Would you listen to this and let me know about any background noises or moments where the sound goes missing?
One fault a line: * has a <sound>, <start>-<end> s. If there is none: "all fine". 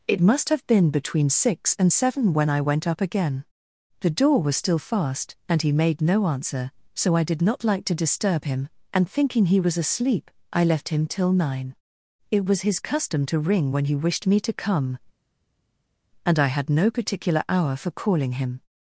all fine